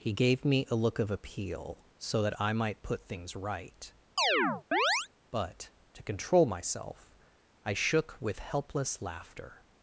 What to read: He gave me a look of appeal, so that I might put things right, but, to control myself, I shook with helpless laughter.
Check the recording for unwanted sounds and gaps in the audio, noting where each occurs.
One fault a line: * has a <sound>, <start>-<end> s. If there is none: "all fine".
* has a chirp, 4.2-5.1 s